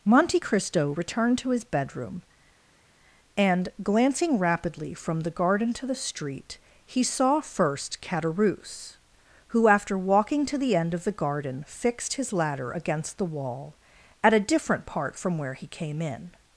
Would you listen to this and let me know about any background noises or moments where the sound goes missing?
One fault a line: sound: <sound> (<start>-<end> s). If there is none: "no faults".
no faults